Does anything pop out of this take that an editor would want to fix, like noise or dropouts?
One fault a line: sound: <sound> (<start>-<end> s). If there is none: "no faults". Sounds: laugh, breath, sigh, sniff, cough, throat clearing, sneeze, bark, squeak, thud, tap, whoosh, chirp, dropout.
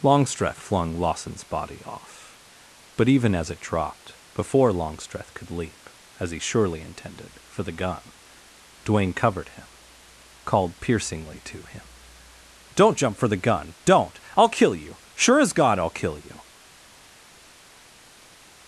no faults